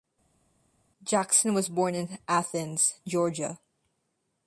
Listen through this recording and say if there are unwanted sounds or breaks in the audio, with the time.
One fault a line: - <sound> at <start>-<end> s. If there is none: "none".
none